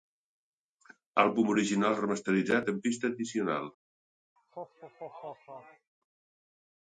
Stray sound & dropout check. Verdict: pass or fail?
fail